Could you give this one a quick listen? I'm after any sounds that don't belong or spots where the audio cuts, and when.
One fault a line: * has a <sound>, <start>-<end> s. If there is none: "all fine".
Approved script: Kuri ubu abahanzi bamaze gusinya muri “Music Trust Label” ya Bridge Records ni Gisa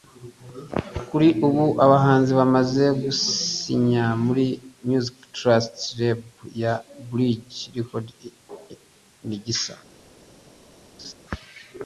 * has a laugh, 11.0-11.1 s